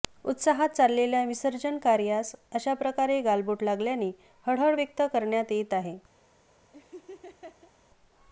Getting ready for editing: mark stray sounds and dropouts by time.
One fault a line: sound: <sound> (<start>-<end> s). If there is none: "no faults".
sound: laugh (6.7-7.7 s)